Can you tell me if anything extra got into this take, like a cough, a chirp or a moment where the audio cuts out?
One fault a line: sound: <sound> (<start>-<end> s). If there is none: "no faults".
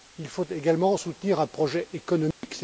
sound: dropout (2.3-2.4 s)